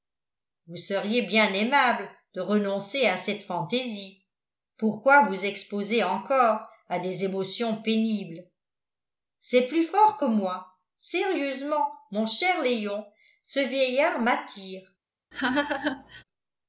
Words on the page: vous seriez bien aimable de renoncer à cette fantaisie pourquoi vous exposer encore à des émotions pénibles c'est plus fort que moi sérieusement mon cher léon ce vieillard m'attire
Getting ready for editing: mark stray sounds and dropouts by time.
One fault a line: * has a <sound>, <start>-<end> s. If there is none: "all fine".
* has a laugh, 15.3-16.2 s